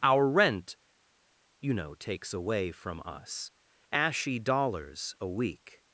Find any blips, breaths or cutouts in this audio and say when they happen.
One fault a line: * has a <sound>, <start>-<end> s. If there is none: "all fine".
all fine